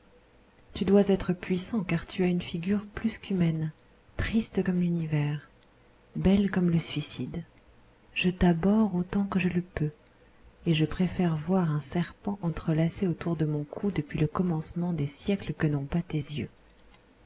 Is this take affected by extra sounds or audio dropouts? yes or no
no